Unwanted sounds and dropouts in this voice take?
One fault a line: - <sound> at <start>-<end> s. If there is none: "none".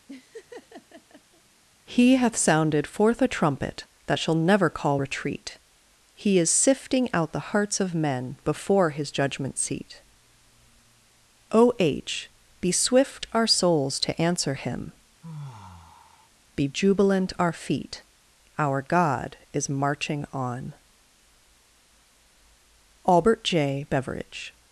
- laugh at 0.1-1.4 s
- sigh at 15.2-16.3 s